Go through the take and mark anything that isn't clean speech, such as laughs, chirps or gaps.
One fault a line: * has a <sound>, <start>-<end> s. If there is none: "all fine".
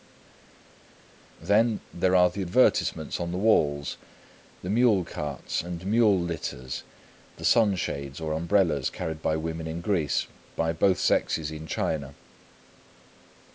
all fine